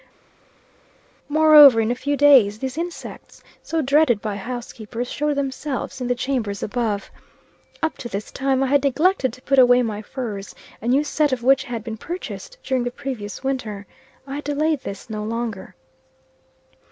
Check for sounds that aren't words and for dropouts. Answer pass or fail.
pass